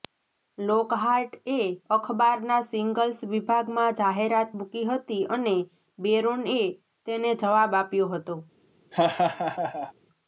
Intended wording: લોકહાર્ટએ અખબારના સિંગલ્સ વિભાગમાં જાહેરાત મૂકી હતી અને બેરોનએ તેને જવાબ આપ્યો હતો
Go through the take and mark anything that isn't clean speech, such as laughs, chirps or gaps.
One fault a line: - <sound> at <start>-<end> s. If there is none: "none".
- laugh at 8.9-9.9 s